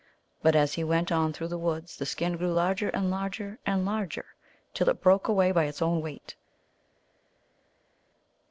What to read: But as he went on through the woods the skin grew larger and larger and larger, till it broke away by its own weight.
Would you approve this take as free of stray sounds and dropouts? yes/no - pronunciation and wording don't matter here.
yes